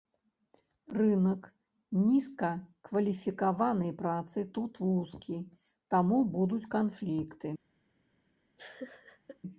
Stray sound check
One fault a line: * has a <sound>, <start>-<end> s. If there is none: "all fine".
* has a laugh, 8.6-9.4 s